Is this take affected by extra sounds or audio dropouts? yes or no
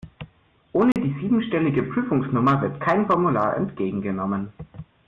yes